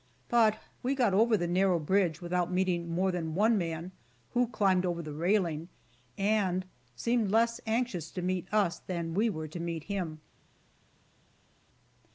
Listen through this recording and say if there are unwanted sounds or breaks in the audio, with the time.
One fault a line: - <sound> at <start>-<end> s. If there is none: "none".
none